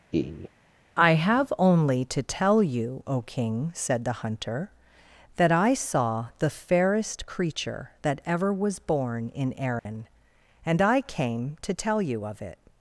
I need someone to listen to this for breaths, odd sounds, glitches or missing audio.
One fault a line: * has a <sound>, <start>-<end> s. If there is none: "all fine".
* has a laugh, 0.1-0.5 s
* has a dropout, 9.8-9.9 s